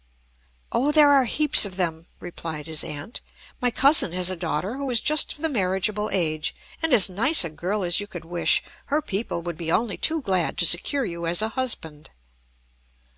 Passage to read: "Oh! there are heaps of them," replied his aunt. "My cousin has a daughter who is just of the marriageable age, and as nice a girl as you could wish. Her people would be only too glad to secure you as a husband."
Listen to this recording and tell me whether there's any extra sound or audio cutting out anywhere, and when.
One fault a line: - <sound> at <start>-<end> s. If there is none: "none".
none